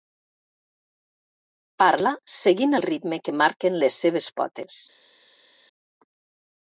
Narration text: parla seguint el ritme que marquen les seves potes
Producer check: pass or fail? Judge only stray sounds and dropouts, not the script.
pass